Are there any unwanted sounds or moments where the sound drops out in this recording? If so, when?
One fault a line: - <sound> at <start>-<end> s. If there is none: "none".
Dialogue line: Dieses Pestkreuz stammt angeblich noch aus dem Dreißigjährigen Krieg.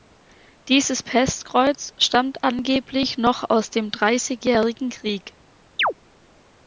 - chirp at 5.8-5.9 s